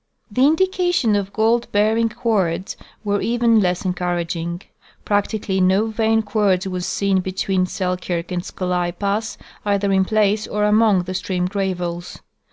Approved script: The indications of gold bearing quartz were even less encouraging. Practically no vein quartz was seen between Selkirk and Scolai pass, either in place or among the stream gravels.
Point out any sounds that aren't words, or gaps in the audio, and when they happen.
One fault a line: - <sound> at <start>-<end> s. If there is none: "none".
none